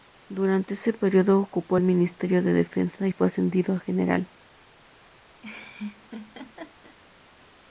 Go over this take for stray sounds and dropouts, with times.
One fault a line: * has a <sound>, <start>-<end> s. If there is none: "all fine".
* has a laugh, 5.4-7.0 s